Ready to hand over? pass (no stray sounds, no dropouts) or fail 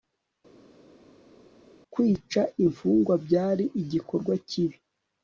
pass